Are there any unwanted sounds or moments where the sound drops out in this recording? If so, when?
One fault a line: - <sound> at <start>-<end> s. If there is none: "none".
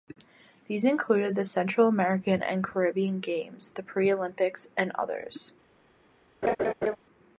- laugh at 6.4-7.0 s